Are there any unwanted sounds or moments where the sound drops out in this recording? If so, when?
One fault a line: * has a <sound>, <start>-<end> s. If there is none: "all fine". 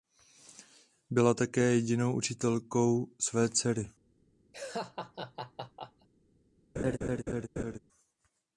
* has a laugh, 4.5-6.1 s
* has a laugh, 6.8-7.8 s